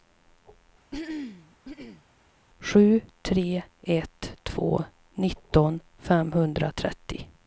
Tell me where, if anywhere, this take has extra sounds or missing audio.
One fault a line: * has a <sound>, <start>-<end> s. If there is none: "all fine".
* has a throat clearing, 0.9-2.0 s